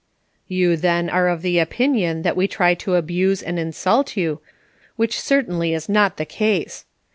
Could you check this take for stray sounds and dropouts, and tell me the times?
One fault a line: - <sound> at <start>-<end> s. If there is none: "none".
none